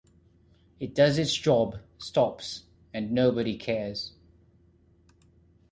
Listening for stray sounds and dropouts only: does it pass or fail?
pass